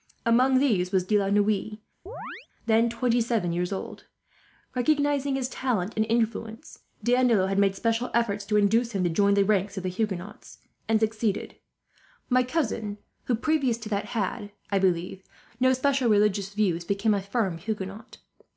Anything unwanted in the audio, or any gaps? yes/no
yes